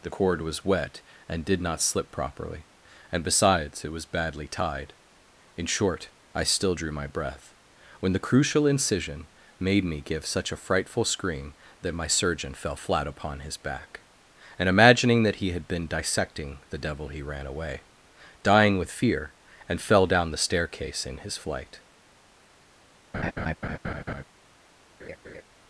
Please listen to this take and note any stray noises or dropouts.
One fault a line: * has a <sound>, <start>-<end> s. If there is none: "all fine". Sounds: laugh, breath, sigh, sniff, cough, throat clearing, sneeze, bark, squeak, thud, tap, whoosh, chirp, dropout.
* has a laugh, 23.1-24.2 s
* has a laugh, 25.0-25.4 s